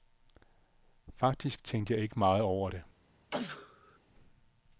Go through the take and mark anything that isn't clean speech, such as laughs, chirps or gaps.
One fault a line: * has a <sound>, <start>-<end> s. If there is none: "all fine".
* has a sneeze, 3.3-4.0 s